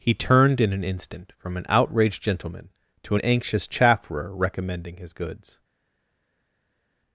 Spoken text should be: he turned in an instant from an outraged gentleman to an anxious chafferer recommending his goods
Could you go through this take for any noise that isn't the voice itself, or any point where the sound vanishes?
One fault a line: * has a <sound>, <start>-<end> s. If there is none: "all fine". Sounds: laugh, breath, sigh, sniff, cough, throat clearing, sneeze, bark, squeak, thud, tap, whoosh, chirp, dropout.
all fine